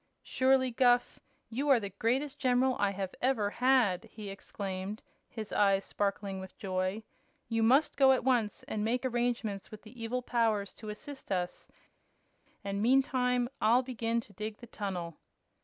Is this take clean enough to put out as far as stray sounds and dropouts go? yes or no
yes